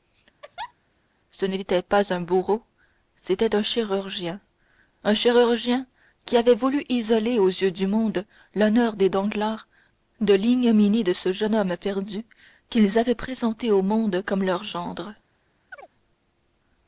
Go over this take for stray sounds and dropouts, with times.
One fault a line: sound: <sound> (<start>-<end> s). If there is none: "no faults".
sound: laugh (0.4-0.7 s)
sound: chirp (15.7-15.9 s)